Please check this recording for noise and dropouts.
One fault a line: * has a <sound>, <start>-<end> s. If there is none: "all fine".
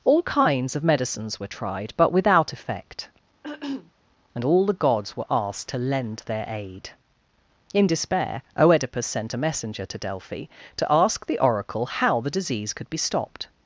* has a throat clearing, 3.4-3.9 s